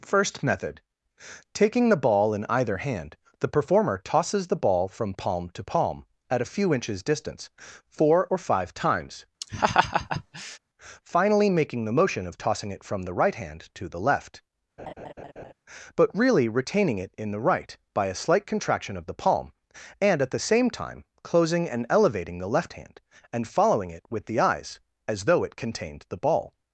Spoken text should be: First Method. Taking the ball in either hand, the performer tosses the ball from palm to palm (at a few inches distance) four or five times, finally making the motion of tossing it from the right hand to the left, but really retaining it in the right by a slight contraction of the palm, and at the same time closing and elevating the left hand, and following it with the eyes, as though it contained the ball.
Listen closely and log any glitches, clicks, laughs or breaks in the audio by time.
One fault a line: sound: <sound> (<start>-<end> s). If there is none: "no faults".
sound: laugh (9.4-10.6 s)
sound: laugh (14.8-15.5 s)